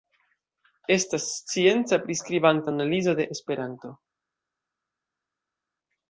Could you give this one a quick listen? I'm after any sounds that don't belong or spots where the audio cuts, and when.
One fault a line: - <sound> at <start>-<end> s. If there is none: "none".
none